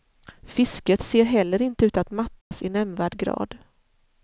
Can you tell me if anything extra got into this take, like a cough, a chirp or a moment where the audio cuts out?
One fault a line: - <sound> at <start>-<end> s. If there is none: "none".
- dropout at 2.4-2.5 s